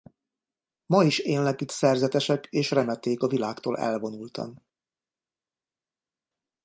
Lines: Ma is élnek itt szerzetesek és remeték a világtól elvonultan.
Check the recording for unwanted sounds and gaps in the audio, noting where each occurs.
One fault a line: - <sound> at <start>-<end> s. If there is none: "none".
none